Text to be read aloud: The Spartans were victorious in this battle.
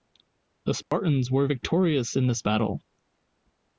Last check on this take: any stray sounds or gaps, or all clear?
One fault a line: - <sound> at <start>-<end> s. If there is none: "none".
- dropout at 0.8-0.9 s